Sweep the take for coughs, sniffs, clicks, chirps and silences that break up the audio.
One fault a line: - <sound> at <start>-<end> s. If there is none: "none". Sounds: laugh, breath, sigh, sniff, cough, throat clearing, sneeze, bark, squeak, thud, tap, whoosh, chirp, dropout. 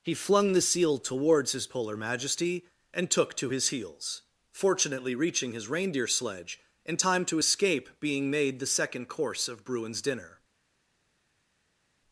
none